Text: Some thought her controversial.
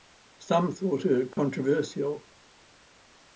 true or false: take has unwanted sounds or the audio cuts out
true